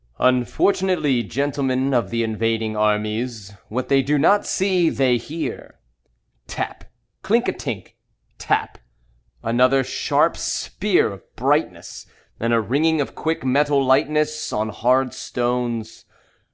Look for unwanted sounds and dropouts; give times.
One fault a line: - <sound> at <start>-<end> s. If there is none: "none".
none